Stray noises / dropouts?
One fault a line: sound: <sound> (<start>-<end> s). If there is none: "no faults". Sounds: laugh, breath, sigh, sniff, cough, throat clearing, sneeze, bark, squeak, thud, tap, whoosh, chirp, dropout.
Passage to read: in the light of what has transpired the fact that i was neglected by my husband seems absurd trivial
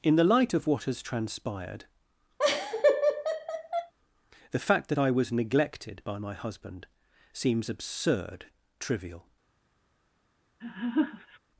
sound: laugh (2.4-3.9 s)
sound: laugh (10.6-11.4 s)